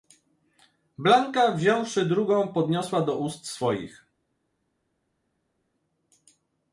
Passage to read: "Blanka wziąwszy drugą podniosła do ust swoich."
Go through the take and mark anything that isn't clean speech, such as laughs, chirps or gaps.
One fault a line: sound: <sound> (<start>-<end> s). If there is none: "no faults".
no faults